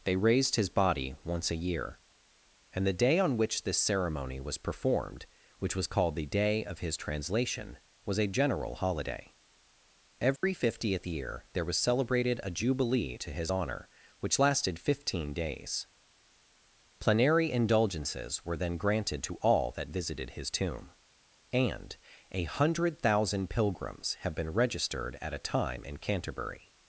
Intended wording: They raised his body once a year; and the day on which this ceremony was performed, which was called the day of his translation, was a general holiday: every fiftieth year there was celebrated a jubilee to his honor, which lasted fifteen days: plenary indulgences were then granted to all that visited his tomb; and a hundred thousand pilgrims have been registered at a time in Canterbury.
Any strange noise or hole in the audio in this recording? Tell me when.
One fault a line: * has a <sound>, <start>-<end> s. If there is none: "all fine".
* has a dropout, 10.4-10.4 s